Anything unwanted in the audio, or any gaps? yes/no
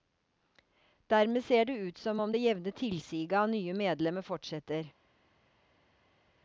no